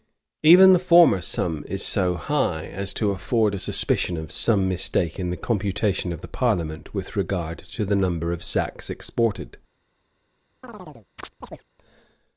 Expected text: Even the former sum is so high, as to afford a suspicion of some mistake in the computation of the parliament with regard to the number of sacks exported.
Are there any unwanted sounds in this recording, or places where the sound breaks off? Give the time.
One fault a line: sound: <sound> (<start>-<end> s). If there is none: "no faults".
sound: chirp (10.6-11.6 s)